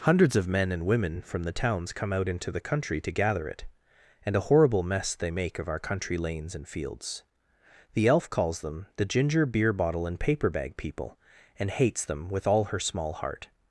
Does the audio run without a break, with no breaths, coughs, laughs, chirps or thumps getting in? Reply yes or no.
yes